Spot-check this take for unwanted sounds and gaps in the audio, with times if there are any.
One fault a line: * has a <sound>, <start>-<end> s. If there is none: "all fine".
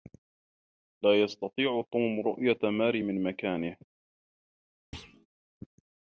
* has a thud, 4.9-5.3 s